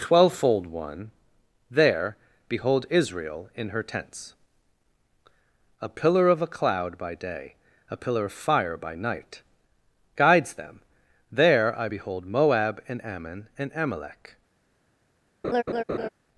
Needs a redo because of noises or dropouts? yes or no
yes